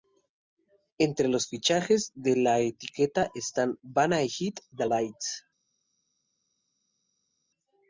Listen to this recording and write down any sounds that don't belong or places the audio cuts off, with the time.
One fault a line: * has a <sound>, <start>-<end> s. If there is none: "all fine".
all fine